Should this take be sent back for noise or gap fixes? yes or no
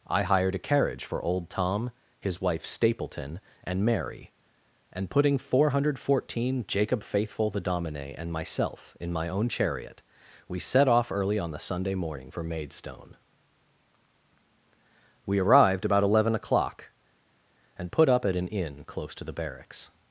no